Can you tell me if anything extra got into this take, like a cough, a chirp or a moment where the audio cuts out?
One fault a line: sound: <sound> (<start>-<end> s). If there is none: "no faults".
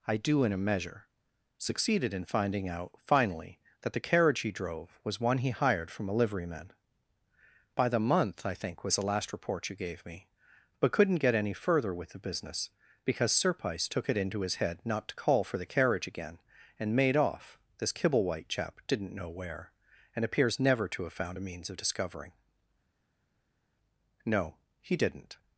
no faults